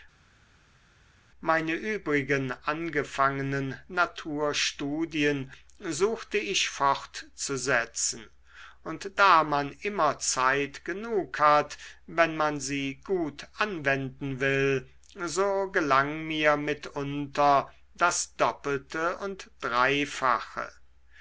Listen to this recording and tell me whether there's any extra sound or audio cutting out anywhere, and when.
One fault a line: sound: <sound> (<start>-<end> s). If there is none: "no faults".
no faults